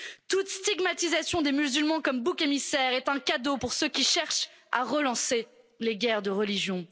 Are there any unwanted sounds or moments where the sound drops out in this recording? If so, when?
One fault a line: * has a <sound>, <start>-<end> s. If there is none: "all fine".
all fine